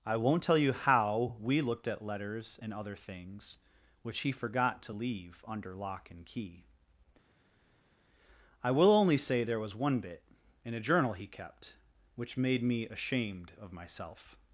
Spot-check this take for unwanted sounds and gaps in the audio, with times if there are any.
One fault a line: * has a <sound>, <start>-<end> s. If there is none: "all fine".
all fine